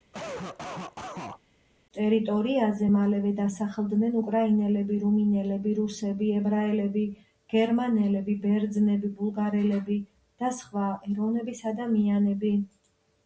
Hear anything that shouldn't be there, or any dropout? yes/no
yes